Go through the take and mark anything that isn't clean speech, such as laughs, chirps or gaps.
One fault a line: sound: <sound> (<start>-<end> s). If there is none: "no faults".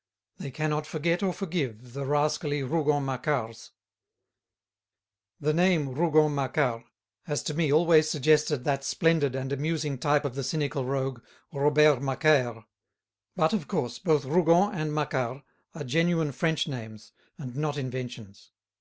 no faults